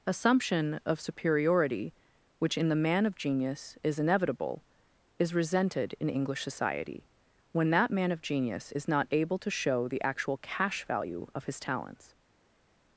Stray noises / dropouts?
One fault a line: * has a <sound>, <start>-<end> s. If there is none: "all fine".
all fine